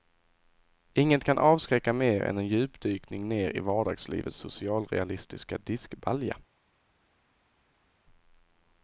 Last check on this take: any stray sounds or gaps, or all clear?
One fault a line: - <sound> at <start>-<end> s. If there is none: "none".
none